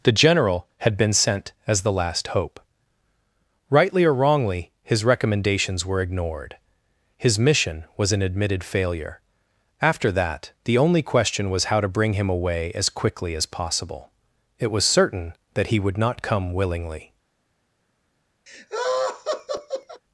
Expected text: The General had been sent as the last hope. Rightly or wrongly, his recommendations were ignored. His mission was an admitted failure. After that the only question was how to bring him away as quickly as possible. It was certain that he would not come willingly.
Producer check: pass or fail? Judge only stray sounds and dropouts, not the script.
fail